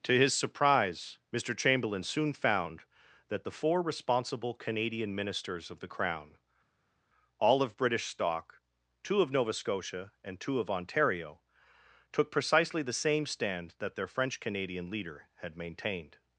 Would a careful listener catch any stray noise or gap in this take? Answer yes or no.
no